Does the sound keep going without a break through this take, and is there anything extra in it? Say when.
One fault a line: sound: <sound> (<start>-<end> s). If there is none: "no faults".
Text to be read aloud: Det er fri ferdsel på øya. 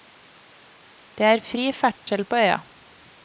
sound: dropout (2.0-2.1 s)